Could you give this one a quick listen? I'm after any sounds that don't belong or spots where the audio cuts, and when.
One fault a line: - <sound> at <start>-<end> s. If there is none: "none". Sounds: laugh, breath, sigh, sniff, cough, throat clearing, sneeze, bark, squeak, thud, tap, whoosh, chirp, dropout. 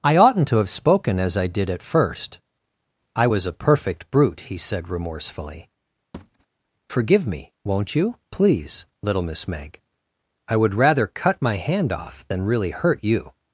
- thud at 6.1-6.5 s